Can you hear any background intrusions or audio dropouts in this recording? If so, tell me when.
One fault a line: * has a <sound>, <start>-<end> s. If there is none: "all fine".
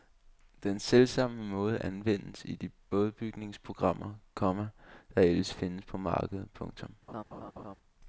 * has a laugh, 7.1-7.8 s